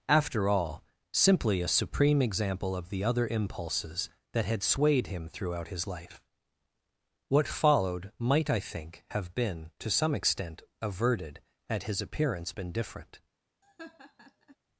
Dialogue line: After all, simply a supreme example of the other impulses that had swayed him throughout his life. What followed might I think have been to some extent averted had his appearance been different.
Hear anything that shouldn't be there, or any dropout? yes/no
yes